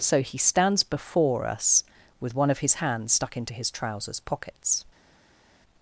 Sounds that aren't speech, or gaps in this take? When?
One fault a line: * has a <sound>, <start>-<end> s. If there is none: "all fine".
all fine